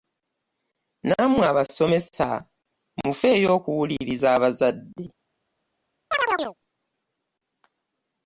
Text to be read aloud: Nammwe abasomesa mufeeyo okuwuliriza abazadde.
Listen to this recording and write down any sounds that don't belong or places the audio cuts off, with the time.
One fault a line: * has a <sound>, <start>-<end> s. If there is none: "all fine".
* has a chirp, 6.1-6.6 s